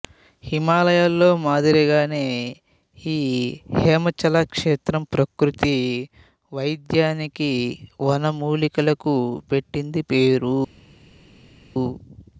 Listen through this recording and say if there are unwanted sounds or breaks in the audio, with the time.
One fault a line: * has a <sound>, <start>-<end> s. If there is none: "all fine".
all fine